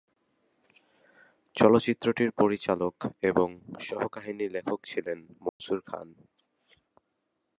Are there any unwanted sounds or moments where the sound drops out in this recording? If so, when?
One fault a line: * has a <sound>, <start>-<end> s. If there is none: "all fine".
* has a dropout, 5.5-5.6 s